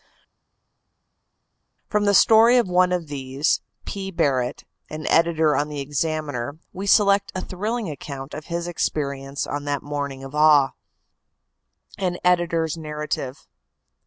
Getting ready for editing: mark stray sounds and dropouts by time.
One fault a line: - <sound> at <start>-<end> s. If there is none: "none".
none